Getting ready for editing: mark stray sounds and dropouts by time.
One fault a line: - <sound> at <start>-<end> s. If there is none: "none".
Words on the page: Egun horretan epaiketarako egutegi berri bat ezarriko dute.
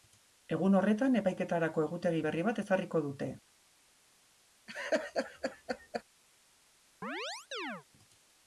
- laugh at 4.7-6.0 s
- chirp at 7.0-7.8 s